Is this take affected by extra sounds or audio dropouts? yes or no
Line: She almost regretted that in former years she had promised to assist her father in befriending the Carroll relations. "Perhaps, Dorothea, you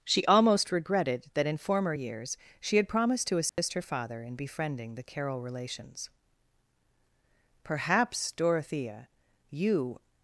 yes